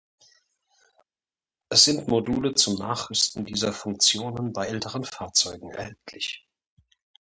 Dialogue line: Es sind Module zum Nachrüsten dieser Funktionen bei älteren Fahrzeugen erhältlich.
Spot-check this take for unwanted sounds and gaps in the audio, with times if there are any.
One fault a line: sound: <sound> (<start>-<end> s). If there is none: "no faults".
no faults